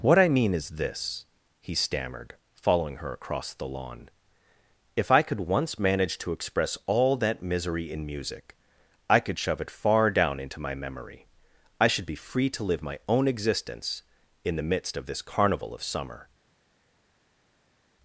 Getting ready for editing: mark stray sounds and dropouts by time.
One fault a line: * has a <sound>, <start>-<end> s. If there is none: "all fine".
all fine